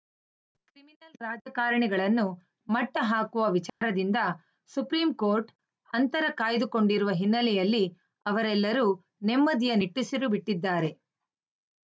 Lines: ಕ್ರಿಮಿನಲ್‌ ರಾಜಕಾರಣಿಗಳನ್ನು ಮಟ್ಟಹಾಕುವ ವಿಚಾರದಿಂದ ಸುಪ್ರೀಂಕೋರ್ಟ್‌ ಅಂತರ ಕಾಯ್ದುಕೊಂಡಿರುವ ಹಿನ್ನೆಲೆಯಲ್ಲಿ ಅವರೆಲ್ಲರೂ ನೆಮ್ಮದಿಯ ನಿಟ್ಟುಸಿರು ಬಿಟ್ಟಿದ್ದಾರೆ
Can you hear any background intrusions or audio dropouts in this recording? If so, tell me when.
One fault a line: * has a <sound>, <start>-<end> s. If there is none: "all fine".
* has a dropout, 3.7-3.8 s